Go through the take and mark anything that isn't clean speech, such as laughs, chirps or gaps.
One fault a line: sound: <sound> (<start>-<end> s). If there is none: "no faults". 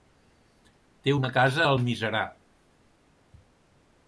no faults